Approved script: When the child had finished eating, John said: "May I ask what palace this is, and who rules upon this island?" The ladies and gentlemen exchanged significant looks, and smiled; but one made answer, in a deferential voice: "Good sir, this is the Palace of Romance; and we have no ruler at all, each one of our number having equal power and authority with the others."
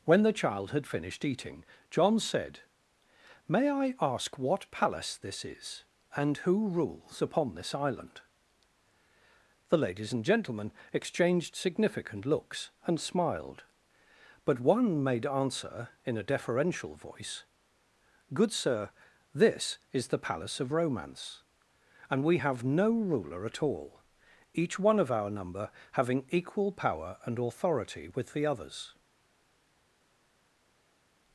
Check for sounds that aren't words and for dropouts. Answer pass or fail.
pass